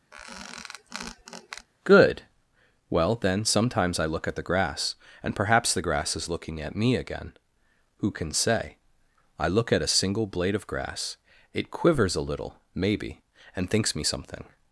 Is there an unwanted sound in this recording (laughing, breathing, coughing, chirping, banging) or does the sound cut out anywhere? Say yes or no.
yes